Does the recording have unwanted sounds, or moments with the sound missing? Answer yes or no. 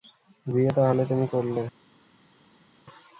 no